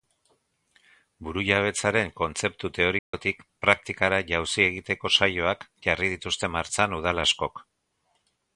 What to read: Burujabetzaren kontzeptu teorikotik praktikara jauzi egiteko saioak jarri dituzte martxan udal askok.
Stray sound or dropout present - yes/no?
yes